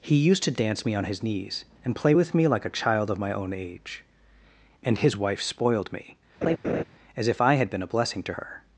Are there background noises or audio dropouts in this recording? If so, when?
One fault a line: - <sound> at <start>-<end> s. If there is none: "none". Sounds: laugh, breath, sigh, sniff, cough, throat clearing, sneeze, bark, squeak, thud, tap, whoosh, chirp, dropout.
- laugh at 6.4-6.8 s